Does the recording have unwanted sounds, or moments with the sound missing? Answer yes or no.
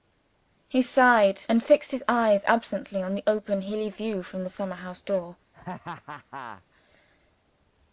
yes